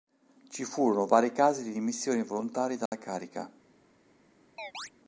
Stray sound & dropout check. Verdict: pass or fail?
fail